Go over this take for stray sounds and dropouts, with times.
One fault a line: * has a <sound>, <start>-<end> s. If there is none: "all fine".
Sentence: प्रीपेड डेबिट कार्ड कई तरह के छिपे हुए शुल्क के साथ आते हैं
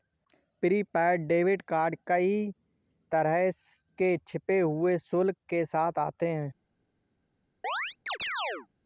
* has a chirp, 7.6-8.7 s